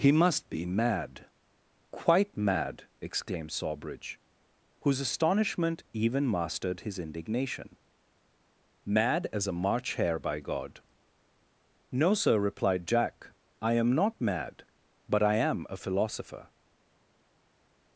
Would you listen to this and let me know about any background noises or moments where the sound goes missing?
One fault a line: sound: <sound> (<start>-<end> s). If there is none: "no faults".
no faults